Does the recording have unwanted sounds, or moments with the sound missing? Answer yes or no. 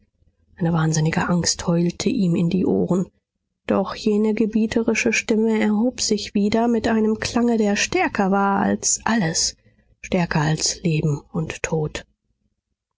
no